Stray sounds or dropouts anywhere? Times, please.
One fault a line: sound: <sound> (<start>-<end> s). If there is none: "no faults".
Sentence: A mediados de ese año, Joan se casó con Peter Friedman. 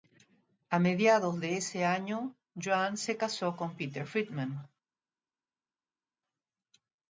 no faults